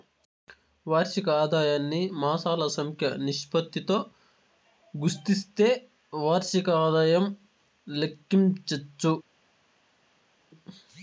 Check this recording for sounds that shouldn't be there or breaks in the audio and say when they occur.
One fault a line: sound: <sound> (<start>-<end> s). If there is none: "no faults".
no faults